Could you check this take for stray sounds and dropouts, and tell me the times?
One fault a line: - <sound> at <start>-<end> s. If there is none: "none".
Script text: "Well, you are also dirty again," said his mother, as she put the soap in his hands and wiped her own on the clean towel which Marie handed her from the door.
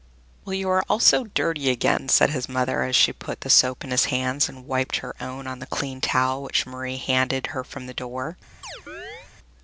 - chirp at 8.6-9.3 s